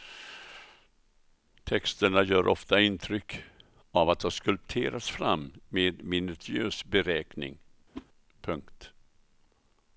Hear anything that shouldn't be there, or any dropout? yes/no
yes